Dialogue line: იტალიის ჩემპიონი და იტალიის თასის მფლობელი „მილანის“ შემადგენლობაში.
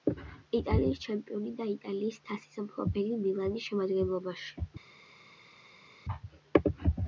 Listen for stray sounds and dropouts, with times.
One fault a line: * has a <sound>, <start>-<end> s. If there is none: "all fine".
all fine